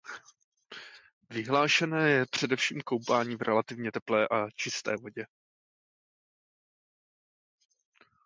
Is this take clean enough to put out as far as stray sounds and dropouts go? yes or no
yes